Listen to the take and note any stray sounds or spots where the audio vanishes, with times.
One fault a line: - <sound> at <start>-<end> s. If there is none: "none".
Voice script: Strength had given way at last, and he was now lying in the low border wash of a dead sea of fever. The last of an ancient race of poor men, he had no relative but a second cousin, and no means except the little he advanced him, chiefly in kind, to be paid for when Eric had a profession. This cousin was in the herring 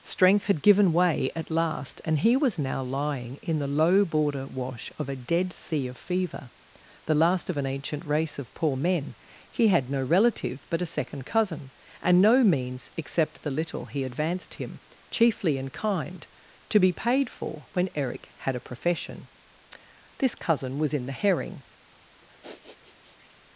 - sniff at 22.2-23.4 s